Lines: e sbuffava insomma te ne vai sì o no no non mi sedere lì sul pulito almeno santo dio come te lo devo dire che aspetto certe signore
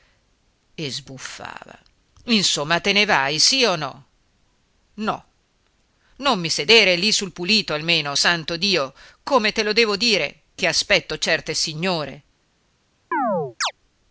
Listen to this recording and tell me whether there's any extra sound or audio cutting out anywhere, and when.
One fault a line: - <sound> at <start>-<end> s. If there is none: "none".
- chirp at 13.1-13.7 s